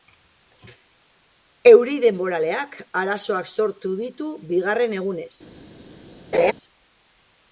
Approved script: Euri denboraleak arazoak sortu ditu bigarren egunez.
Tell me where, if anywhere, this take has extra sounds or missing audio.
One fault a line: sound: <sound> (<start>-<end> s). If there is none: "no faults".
sound: laugh (6.3-6.5 s)